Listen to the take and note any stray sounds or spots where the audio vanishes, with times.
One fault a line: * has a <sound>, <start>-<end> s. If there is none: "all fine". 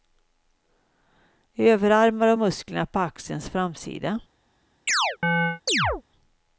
* has a chirp, 4.9-6.0 s